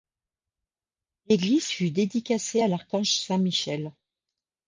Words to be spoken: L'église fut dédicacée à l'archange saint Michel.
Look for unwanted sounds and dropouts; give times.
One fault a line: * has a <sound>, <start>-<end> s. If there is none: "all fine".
all fine